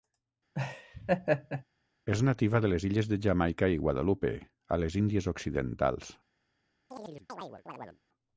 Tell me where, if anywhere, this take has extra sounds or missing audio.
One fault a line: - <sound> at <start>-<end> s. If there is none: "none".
- laugh at 0.5-1.6 s
- chirp at 6.9-8.0 s